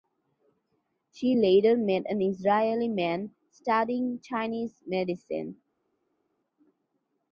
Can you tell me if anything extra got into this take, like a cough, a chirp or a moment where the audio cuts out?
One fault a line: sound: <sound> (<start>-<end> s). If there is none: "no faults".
no faults